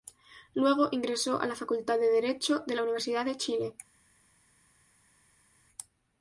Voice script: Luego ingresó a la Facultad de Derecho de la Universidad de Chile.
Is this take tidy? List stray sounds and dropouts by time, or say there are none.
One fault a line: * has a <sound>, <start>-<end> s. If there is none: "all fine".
all fine